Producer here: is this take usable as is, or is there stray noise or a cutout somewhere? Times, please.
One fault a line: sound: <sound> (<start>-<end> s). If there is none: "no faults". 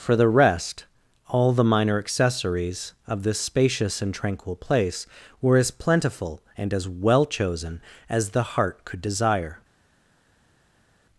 no faults